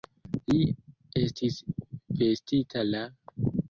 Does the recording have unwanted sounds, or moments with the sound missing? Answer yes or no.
no